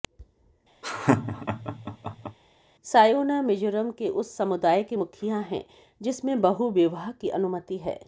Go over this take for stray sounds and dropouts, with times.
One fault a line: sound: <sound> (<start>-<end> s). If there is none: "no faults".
sound: laugh (0.8-2.4 s)